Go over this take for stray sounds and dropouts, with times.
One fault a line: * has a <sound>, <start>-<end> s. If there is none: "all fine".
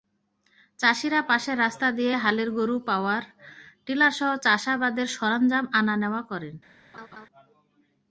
* has a laugh, 6.9-7.3 s